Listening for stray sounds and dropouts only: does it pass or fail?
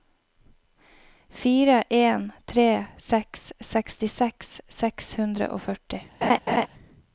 fail